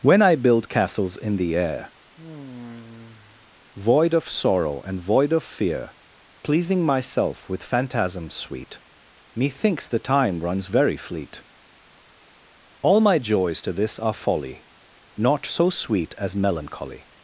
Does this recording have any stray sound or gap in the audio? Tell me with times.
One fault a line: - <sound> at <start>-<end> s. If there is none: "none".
- sigh at 2.1-3.5 s